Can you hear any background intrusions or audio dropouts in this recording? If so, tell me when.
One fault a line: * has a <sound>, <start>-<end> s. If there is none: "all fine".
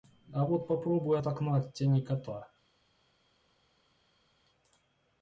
all fine